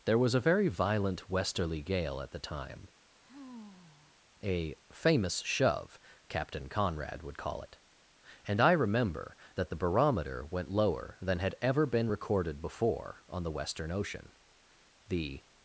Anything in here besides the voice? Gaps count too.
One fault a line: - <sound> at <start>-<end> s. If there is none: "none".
- sigh at 3.2-4.2 s